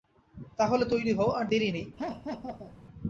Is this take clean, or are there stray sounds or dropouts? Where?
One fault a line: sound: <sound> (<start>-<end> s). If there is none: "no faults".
sound: laugh (2.0-2.8 s)